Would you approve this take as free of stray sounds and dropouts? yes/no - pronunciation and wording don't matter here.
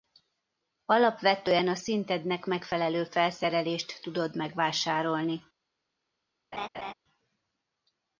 no